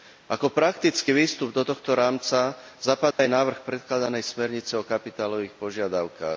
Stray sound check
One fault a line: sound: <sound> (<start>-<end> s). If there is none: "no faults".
sound: dropout (3.1-3.2 s)